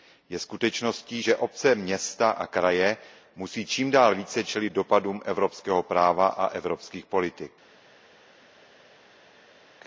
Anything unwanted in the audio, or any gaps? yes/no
no